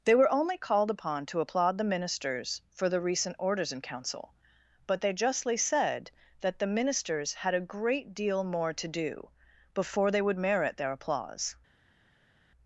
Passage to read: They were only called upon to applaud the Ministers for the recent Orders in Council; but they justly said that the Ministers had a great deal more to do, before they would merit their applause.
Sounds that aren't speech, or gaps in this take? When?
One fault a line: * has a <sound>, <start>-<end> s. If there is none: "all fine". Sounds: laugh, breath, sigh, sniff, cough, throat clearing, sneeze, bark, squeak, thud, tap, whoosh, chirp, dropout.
all fine